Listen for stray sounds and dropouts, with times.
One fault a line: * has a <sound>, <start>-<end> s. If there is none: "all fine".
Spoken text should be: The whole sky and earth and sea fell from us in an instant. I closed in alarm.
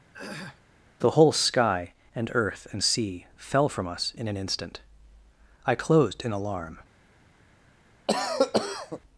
* has a throat clearing, 0.1-0.6 s
* has a cough, 8.1-9.0 s